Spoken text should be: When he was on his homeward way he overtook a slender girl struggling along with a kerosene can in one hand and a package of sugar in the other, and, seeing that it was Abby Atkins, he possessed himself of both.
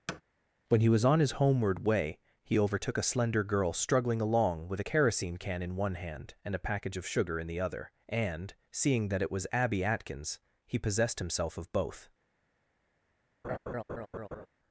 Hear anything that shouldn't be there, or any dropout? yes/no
yes